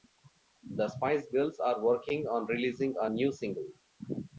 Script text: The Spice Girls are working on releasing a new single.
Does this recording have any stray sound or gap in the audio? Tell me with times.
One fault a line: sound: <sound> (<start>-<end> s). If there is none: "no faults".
no faults